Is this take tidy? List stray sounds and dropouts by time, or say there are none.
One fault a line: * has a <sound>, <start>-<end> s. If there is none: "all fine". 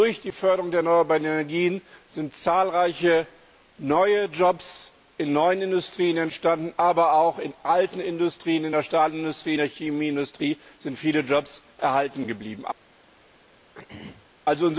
* has a throat clearing, 13.7-14.3 s